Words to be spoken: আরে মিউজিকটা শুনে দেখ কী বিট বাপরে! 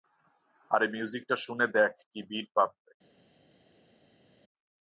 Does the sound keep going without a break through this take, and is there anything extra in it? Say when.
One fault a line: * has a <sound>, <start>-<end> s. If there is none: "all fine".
all fine